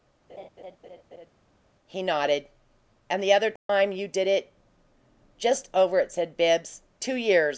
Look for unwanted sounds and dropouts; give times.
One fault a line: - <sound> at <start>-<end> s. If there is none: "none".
- laugh at 0.3-1.3 s
- dropout at 3.6-3.7 s